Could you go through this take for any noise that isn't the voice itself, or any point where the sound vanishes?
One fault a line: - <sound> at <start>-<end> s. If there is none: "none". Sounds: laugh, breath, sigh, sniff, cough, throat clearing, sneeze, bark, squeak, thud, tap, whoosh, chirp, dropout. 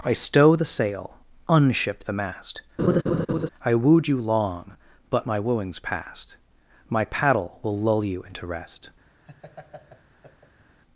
- laugh at 2.8-3.5 s
- laugh at 9.3-10.8 s